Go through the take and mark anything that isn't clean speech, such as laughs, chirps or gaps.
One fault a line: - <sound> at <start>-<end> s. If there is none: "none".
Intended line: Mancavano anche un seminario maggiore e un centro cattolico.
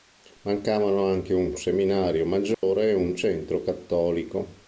- dropout at 2.5-2.6 s